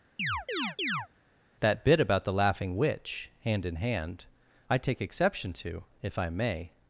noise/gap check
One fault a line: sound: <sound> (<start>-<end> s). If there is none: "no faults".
sound: chirp (0.2-1.1 s)